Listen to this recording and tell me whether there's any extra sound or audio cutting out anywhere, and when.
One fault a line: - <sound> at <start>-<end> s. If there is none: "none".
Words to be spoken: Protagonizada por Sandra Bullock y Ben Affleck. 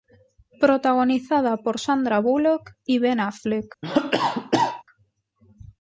- cough at 3.8-4.8 s